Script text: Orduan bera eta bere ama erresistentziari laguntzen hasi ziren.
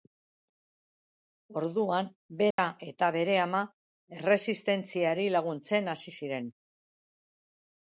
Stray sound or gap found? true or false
true